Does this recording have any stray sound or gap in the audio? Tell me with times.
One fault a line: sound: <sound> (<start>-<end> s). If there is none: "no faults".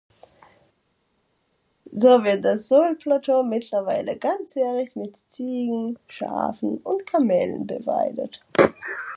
no faults